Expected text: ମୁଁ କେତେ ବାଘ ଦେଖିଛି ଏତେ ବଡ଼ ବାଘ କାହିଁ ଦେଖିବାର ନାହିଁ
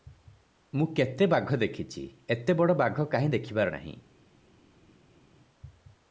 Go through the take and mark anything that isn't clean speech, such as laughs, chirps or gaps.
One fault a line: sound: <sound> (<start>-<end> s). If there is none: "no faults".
no faults